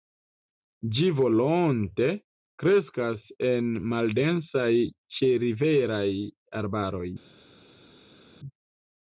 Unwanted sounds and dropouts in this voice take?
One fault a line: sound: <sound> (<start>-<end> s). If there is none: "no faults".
no faults